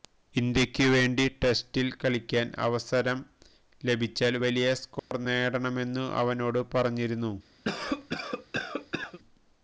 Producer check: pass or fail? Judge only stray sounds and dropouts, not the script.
fail